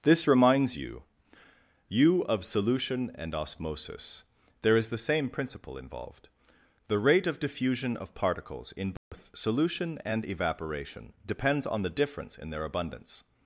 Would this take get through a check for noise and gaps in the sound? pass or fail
fail